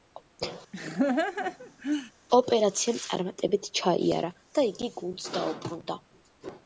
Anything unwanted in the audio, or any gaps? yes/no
yes